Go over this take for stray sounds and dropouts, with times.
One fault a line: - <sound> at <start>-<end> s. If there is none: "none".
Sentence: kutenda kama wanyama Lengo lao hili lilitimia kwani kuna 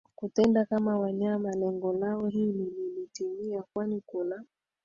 none